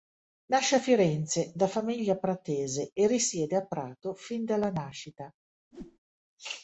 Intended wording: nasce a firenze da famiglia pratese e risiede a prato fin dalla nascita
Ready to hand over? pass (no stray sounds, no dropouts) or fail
fail